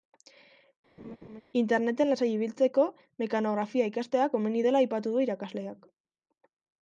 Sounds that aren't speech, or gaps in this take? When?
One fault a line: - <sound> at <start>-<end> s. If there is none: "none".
- laugh at 1.0-1.4 s